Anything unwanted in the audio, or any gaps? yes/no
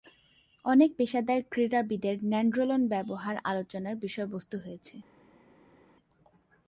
no